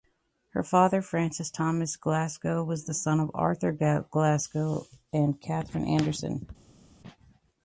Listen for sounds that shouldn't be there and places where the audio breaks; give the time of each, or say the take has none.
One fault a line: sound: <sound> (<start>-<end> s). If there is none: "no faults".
no faults